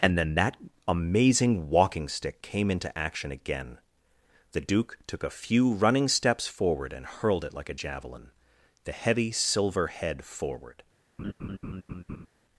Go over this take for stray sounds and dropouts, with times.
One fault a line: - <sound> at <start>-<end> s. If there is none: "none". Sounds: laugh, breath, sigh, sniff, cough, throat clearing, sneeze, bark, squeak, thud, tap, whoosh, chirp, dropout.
- laugh at 11.2-12.3 s